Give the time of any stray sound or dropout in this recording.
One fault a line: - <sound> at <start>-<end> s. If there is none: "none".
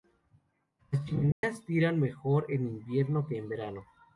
- dropout at 1.3-1.4 s